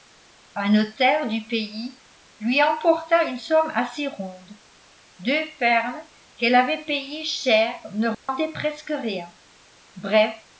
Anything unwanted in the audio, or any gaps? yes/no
yes